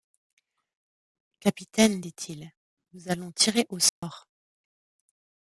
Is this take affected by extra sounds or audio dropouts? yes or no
yes